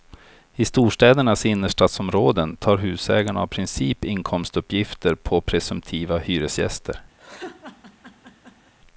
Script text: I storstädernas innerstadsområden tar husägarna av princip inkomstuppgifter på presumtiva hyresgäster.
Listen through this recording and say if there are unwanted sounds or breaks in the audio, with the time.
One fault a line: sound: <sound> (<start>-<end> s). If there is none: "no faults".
sound: laugh (7.2-8.7 s)